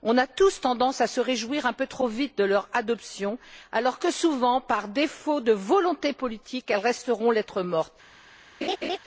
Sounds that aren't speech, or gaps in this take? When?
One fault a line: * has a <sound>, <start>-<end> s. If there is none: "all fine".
* has a laugh, 8.6-9.0 s